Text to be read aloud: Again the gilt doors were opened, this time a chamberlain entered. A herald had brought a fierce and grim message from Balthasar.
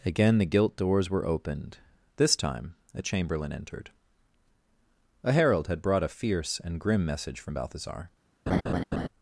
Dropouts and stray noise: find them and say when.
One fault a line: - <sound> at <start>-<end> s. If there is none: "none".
- laugh at 8.5-9.1 s